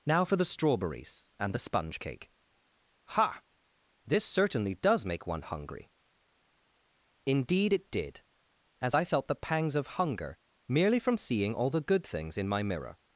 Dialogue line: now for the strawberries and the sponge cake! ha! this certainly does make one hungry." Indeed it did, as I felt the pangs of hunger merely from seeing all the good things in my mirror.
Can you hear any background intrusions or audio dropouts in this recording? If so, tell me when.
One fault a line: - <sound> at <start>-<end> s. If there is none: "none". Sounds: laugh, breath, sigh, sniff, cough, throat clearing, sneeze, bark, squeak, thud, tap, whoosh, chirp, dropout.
none